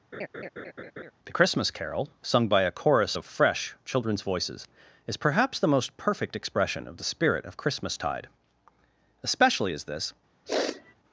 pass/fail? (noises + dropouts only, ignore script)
fail